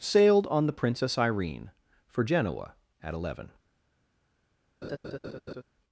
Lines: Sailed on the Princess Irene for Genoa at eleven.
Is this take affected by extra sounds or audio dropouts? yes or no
yes